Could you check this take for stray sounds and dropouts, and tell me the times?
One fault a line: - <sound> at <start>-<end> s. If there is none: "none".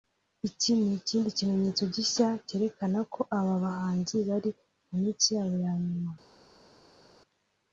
none